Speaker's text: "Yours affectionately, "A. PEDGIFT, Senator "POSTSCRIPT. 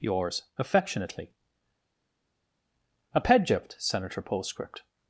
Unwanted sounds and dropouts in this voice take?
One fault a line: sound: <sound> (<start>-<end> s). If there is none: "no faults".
no faults